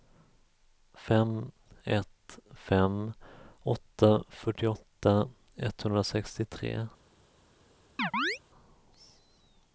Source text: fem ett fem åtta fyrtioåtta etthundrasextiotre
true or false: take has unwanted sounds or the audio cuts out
true